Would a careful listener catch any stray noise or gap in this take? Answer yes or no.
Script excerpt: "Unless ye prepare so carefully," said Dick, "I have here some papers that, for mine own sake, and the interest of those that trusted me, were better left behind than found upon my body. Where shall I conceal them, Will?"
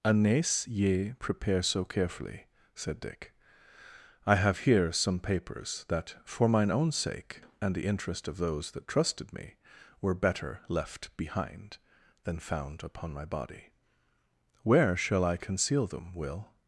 no